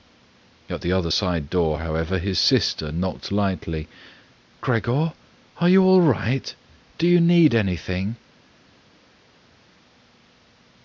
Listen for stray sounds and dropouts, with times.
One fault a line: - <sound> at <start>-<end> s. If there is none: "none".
none